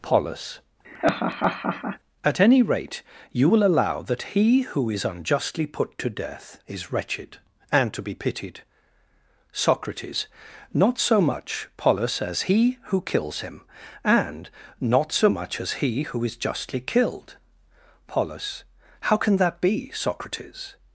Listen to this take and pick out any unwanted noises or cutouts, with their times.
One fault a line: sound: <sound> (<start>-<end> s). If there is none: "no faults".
sound: laugh (0.8-2.0 s)